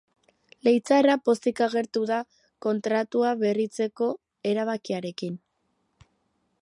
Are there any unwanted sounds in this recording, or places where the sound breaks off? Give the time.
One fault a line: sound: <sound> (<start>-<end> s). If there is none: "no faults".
no faults